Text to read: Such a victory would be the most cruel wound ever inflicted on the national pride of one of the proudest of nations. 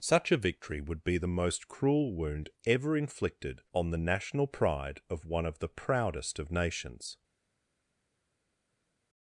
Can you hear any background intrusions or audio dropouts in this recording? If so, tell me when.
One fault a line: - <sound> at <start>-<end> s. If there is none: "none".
none